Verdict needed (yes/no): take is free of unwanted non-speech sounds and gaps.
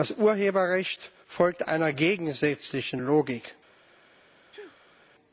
no